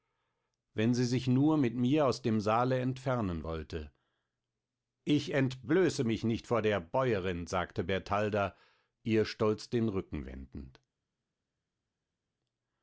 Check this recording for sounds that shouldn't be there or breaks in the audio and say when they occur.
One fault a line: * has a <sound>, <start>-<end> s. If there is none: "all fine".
all fine